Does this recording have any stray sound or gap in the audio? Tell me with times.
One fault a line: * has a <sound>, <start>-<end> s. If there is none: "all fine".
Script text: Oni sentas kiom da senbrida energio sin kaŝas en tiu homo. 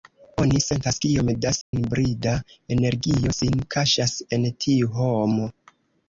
* has a dropout, 1.6-1.7 s